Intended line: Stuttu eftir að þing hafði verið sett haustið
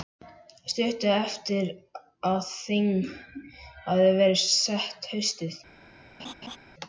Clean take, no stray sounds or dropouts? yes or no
no